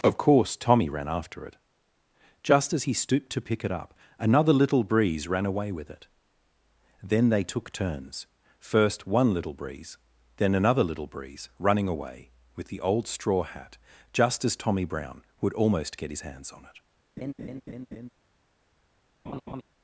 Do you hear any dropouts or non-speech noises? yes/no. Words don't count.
yes